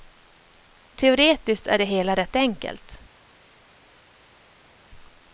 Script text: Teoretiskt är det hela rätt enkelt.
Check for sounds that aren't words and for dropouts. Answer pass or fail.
pass